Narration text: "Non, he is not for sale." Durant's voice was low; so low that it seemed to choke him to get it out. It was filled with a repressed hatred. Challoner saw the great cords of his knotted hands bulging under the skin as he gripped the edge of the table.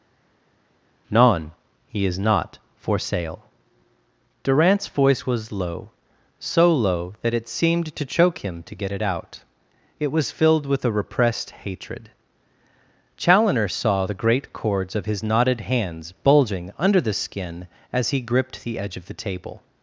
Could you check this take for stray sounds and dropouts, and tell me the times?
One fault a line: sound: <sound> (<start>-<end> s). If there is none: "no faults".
no faults